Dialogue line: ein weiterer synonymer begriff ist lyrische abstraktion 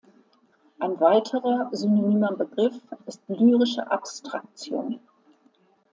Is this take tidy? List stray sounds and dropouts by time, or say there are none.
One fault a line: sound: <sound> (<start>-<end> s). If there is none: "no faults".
no faults